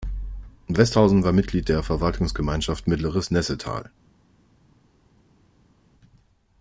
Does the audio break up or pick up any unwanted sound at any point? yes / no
no